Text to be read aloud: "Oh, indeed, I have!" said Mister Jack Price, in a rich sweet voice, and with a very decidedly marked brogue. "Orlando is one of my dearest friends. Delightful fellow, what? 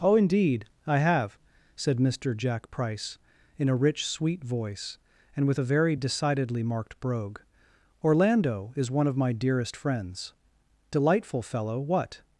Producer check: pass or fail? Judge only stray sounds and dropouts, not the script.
pass